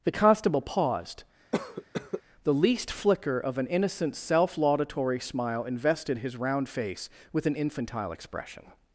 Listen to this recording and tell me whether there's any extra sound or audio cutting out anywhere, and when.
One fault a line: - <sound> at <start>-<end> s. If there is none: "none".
- cough at 1.5-2.2 s